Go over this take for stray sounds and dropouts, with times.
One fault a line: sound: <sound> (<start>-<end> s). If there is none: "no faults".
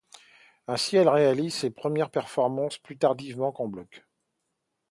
no faults